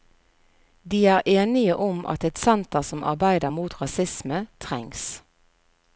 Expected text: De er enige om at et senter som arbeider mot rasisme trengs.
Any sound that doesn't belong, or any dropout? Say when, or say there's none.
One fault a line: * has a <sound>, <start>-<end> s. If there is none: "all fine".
all fine